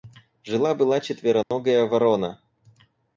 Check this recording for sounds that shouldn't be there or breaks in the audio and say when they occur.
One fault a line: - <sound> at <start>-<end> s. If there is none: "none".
- dropout at 1.4-1.5 s